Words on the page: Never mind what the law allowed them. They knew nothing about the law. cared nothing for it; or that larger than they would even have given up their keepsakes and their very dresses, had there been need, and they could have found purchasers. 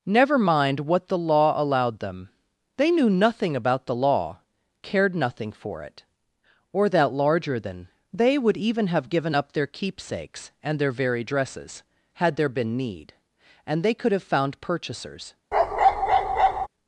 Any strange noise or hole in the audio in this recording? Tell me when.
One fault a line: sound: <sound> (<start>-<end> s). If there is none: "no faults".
sound: bark (15.5-16.7 s)